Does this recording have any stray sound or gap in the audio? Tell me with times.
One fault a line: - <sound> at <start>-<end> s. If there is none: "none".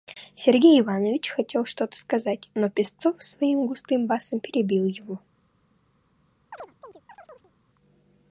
- chirp at 6.5-7.5 s